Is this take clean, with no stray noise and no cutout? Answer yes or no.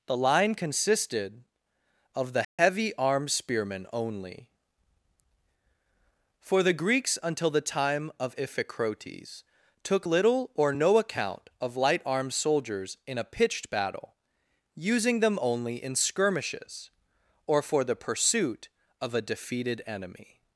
no